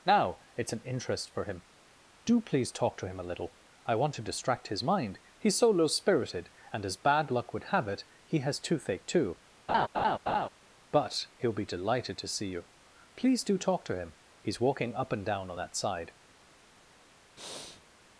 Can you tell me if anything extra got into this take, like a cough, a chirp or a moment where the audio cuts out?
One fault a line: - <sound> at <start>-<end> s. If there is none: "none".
- laugh at 9.7-10.5 s
- breath at 17.4-17.8 s